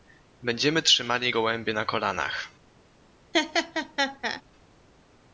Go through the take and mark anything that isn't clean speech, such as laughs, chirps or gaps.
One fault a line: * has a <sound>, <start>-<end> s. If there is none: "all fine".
* has a laugh, 3.3-4.4 s